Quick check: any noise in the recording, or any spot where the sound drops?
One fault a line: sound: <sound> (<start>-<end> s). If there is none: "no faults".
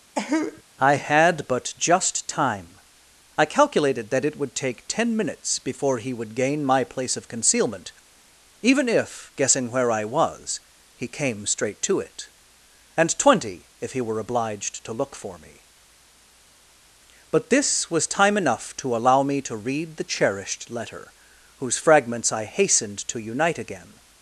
sound: cough (0.2-0.6 s)